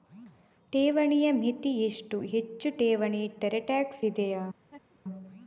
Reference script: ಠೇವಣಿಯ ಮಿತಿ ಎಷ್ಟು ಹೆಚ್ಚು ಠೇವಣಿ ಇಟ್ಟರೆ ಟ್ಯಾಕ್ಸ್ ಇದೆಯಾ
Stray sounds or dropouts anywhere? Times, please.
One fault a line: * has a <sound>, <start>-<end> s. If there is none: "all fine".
* has a laugh, 4.6-5.0 s